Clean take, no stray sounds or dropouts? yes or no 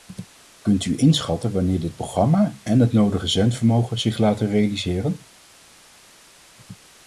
yes